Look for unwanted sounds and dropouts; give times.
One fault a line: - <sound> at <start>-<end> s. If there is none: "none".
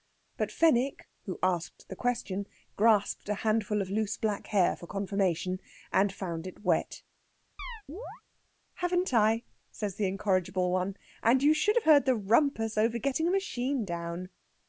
- chirp at 7.6-8.2 s